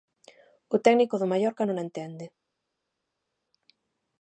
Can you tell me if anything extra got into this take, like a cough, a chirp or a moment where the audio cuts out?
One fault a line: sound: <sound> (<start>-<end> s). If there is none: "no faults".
no faults